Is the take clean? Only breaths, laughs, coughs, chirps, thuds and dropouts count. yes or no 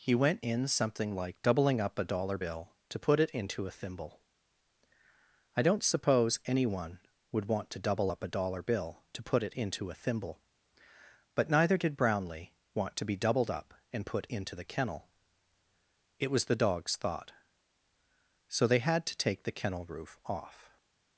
yes